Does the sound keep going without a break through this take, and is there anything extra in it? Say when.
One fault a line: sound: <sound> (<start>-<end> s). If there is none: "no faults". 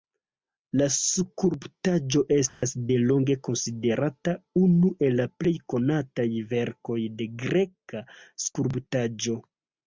sound: dropout (2.5-2.6 s)